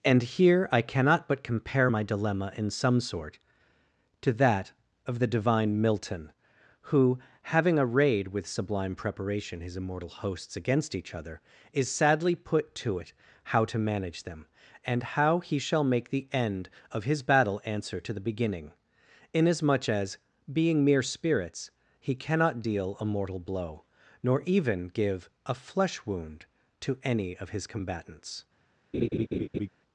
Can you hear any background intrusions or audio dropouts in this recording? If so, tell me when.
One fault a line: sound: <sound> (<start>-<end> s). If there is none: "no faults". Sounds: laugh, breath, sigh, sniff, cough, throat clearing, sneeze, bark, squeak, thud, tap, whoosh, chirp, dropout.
sound: laugh (28.9-29.7 s)